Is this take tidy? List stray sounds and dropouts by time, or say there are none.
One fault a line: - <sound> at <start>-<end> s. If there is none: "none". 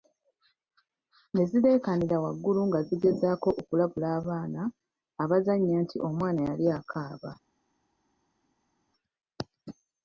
none